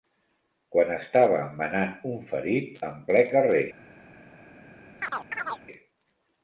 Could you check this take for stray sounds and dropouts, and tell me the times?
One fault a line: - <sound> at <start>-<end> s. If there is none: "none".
- chirp at 5.0-5.6 s